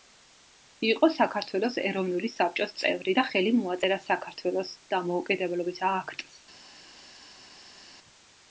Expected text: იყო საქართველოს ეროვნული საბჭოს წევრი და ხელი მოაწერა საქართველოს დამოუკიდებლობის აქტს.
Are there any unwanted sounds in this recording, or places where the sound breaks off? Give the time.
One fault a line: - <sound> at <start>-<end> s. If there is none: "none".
none